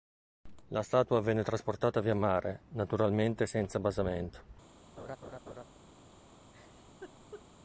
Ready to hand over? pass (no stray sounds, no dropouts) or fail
fail